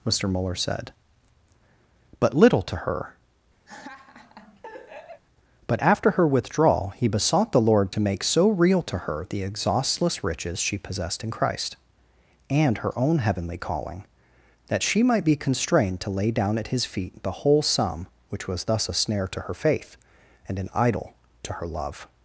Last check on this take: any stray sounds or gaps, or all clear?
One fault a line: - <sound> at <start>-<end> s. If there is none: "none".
- laugh at 3.7-5.2 s